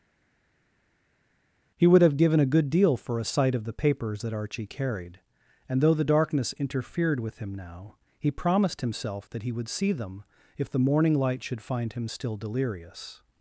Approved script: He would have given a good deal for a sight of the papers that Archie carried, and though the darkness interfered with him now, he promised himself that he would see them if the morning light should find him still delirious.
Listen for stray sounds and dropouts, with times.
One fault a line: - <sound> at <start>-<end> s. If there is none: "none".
none